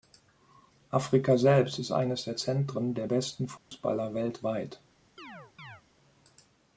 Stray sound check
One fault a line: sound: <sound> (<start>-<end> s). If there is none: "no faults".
sound: dropout (3.6-3.7 s)
sound: chirp (5.2-5.8 s)